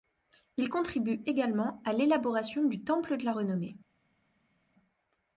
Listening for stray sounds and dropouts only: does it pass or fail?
pass